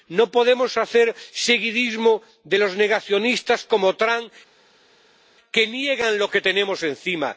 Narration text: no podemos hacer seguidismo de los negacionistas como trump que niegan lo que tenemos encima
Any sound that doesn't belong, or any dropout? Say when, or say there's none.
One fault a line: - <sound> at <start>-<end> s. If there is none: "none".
none